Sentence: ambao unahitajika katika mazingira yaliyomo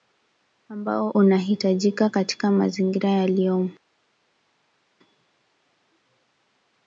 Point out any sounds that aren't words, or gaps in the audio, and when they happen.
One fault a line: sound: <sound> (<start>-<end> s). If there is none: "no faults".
no faults